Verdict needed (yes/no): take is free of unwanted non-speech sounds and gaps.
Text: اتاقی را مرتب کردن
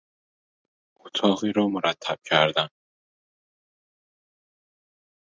yes